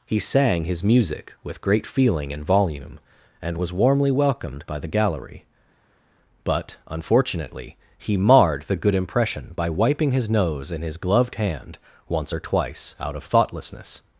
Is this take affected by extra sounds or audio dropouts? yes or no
no